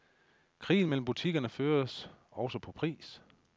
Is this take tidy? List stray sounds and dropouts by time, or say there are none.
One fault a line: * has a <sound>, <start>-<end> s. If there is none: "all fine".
all fine